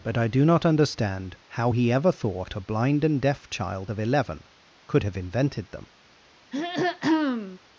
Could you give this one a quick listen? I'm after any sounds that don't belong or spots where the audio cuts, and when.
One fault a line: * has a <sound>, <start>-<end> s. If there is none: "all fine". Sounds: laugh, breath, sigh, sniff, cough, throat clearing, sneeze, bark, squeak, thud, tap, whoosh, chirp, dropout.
* has a throat clearing, 6.5-7.6 s